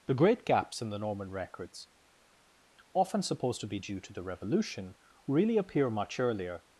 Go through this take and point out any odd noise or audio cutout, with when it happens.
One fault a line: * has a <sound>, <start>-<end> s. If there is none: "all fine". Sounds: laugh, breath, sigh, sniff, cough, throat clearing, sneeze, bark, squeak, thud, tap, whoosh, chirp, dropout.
all fine